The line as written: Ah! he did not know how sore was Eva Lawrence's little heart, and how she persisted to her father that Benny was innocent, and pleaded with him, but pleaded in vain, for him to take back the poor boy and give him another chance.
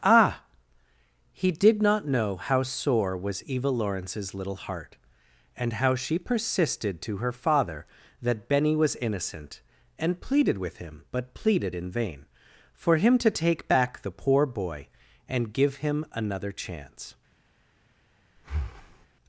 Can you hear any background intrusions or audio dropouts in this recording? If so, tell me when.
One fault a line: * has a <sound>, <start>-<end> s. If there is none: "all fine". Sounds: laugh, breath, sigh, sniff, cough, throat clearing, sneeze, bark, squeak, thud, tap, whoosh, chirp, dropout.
* has a breath, 18.4-19.1 s